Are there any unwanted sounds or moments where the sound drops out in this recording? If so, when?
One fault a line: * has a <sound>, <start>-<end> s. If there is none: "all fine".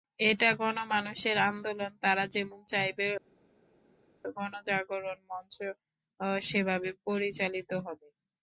all fine